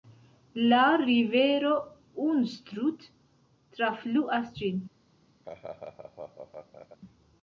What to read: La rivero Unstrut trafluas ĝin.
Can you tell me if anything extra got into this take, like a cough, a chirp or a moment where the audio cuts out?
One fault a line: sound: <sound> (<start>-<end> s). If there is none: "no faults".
sound: laugh (5.4-7.0 s)